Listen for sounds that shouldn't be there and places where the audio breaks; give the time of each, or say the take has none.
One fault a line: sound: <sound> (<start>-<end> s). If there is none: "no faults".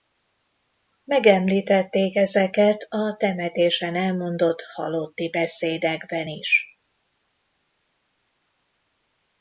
no faults